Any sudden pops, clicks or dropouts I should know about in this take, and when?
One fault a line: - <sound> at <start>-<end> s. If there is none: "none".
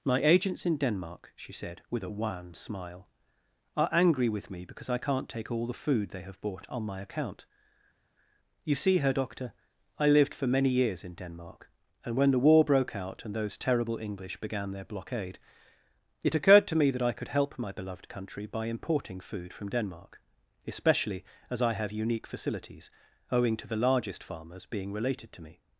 none